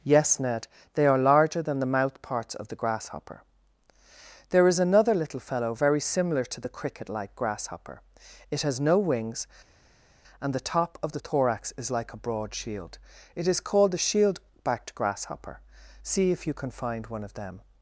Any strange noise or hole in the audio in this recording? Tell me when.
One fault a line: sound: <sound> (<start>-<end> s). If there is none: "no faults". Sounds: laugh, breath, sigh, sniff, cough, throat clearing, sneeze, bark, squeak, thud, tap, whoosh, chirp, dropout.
no faults